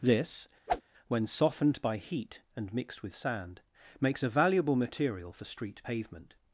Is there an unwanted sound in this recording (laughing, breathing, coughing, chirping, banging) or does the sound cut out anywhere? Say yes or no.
yes